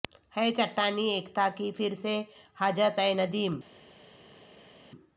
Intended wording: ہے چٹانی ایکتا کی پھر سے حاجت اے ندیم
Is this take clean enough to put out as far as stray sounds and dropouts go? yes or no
yes